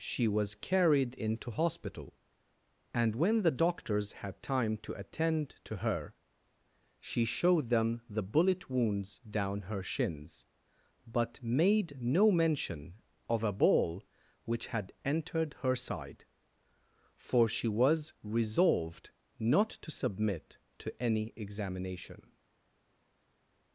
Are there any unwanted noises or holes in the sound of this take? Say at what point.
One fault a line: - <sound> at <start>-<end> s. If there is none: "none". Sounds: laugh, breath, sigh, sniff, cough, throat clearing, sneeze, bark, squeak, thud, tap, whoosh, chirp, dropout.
none